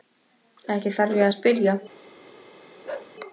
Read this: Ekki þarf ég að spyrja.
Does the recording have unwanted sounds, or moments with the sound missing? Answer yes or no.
yes